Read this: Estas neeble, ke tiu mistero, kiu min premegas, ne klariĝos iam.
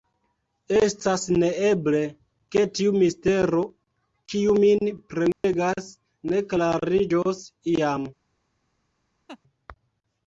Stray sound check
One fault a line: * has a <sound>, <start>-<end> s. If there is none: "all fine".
* has a dropout, 5.3-5.4 s
* has a laugh, 9.3-9.4 s